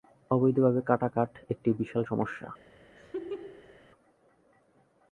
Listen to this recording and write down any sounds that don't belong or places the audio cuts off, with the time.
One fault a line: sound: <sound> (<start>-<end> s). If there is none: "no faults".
sound: laugh (3.0-3.8 s)